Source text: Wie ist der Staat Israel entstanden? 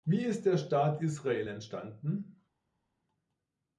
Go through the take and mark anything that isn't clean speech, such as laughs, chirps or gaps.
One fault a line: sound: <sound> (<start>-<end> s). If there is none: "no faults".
no faults